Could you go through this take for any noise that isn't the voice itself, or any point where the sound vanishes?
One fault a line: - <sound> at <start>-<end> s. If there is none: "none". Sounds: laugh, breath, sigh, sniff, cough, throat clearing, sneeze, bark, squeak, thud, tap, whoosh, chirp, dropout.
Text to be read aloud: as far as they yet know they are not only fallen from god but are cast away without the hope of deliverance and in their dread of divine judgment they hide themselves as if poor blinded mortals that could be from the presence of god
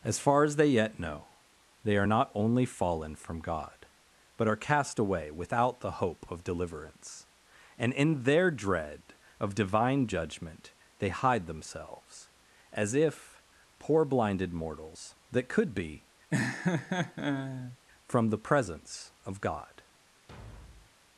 - laugh at 16.3-17.8 s
- thud at 20.3-21.0 s